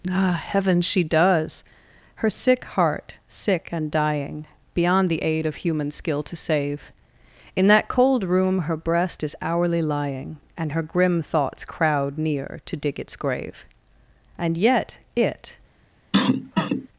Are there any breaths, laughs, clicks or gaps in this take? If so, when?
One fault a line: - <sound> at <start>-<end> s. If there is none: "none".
- cough at 16.1-16.9 s